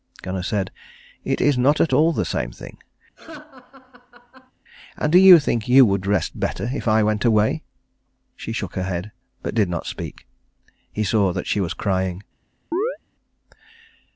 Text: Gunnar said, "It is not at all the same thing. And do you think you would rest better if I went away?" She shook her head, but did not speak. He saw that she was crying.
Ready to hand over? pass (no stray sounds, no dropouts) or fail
fail